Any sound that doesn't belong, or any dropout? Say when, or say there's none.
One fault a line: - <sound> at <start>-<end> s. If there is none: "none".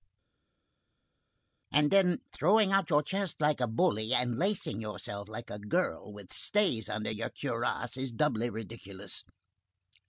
none